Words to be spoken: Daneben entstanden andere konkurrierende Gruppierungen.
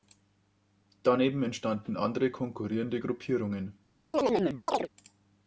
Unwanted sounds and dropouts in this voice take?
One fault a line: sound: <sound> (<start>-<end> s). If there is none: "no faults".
sound: chirp (4.1-4.9 s)